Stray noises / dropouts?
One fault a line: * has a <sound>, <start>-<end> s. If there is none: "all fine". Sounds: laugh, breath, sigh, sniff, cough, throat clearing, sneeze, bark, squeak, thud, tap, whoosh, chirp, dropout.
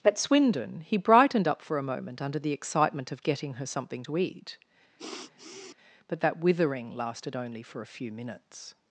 * has a sniff, 5.0-5.8 s